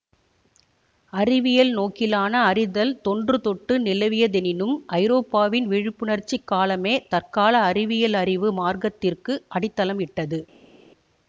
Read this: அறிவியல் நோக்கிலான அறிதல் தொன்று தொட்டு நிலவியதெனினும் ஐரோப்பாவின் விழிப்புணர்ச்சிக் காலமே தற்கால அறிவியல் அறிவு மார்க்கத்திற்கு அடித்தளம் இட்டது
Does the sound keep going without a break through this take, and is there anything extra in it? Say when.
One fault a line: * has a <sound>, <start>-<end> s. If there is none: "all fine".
all fine